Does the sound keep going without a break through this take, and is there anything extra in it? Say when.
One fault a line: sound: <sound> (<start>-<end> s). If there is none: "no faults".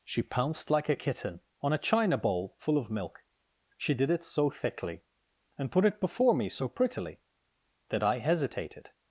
no faults